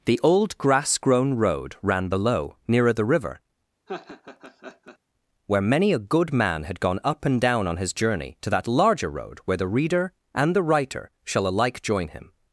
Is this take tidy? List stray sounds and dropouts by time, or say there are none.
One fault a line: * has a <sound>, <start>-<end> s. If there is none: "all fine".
* has a laugh, 3.9-5.0 s